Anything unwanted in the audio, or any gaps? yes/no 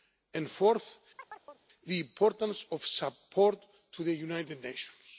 yes